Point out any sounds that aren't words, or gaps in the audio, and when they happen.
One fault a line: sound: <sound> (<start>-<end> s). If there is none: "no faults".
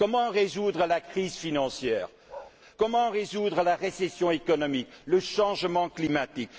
sound: bark (2.3-2.5 s)